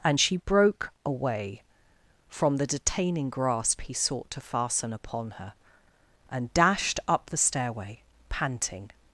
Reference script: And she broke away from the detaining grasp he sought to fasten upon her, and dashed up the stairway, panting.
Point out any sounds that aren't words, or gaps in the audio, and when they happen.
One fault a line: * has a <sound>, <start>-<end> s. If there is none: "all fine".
all fine